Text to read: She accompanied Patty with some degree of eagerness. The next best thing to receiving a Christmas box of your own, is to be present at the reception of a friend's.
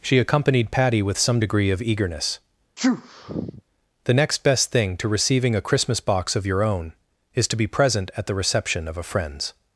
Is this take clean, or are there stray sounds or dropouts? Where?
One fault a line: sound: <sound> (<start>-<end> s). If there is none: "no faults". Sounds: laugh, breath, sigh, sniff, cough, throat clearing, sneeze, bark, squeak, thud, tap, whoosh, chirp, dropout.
sound: sneeze (2.8-3.6 s)